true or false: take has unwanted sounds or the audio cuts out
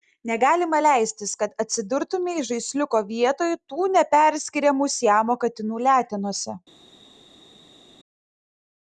false